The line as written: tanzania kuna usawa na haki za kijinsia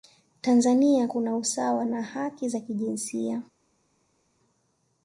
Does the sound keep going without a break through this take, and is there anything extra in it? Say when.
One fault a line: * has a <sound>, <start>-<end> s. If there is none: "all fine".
all fine